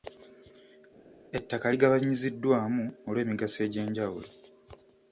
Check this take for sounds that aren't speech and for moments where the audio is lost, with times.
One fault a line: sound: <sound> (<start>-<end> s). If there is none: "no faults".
no faults